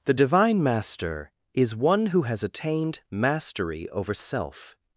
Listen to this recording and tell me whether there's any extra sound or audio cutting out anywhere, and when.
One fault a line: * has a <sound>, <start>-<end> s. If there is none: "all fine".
all fine